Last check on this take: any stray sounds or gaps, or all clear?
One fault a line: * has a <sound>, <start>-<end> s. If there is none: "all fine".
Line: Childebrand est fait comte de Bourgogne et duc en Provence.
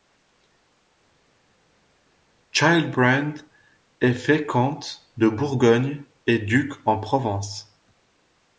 all fine